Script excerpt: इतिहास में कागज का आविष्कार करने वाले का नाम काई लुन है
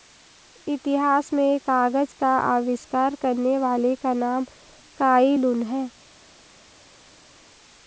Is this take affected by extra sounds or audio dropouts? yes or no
no